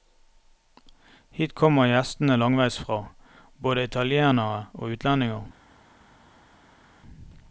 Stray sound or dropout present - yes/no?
no